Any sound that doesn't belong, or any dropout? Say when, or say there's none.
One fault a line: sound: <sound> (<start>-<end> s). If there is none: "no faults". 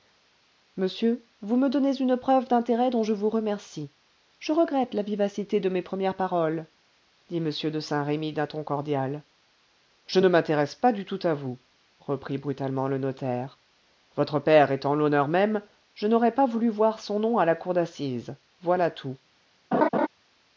sound: laugh (19.7-20.1 s)